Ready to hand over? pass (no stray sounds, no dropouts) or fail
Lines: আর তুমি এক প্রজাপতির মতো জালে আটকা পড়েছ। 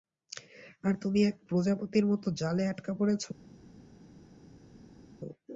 pass